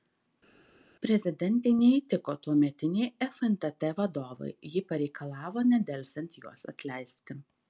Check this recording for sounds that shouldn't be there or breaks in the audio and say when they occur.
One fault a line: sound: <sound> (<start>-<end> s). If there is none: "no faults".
no faults